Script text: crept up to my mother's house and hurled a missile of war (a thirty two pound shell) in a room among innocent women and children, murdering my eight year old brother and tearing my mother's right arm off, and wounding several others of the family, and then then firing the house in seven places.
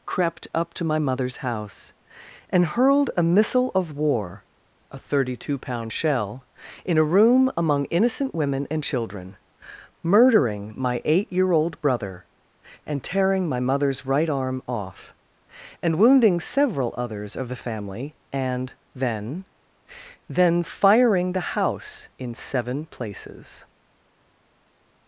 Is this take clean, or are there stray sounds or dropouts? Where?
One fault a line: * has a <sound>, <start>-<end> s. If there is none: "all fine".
all fine